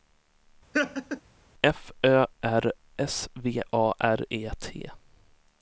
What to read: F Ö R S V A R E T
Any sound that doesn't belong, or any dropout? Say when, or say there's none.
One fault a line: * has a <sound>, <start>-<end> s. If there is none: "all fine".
* has a laugh, 0.7-1.2 s